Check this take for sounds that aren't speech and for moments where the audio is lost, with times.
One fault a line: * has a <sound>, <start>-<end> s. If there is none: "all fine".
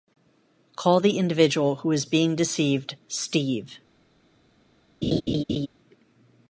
* has a laugh, 5.0-5.7 s